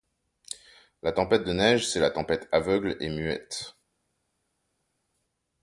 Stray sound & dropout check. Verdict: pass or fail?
pass